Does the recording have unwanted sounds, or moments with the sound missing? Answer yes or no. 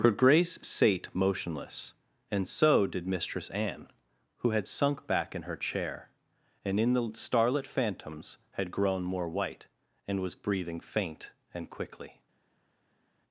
no